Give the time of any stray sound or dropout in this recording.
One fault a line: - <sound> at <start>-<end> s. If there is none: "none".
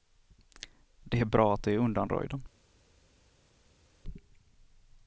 none